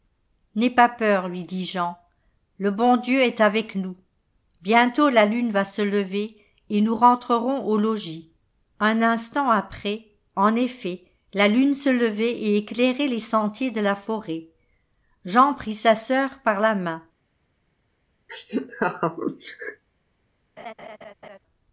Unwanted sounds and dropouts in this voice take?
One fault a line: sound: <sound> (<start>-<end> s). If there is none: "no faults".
sound: laugh (18.3-19.8 s)
sound: laugh (20.6-21.4 s)